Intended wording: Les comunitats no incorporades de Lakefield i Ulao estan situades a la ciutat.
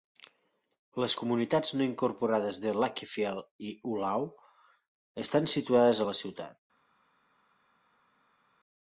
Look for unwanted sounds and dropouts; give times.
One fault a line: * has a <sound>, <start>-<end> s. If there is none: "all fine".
all fine